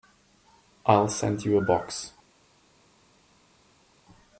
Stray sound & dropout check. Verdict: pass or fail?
pass